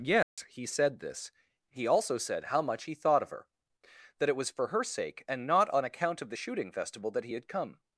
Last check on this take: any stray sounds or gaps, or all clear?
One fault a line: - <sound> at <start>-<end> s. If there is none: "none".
- dropout at 0.2-0.4 s